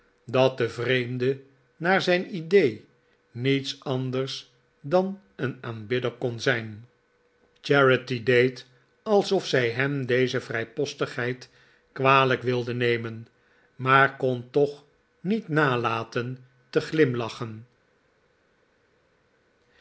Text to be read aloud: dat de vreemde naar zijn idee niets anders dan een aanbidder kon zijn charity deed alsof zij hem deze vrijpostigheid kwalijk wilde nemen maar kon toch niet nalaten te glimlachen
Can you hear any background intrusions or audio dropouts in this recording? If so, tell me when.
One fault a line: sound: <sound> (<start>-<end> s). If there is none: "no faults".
no faults